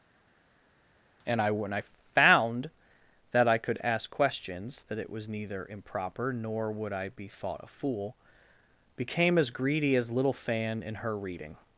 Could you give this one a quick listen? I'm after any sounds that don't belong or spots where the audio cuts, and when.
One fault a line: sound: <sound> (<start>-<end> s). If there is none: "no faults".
no faults